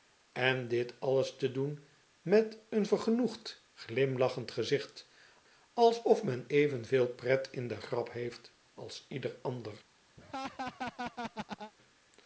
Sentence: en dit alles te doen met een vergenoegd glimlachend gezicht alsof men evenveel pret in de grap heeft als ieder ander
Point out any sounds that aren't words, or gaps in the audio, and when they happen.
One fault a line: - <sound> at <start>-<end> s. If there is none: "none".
- laugh at 10.2-11.7 s